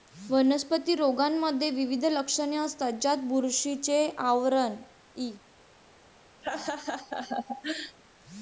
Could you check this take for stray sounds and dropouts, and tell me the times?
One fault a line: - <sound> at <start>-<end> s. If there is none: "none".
- laugh at 6.4-8.0 s